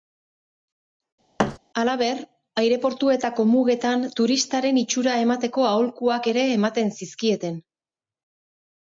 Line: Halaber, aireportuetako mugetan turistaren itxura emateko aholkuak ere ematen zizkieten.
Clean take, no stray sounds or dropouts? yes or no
no